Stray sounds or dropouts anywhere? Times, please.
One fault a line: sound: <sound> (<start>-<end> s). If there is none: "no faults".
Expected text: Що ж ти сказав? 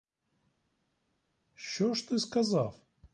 no faults